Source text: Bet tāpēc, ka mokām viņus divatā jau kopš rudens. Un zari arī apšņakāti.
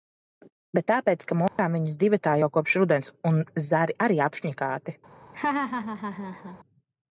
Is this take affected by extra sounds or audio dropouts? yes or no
yes